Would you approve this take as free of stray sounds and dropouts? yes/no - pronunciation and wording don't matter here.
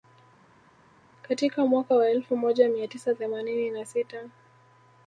yes